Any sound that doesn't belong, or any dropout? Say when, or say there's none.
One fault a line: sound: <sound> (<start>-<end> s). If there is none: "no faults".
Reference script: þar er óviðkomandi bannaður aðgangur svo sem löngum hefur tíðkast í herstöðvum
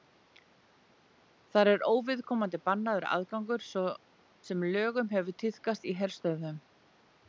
no faults